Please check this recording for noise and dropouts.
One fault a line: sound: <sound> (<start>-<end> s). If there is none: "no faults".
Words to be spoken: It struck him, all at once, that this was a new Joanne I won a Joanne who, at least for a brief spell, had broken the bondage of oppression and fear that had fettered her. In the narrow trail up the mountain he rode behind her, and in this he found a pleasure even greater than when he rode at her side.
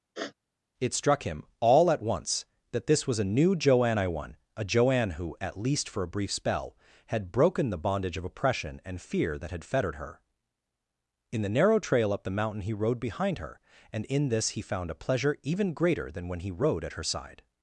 sound: sniff (0.2-0.3 s)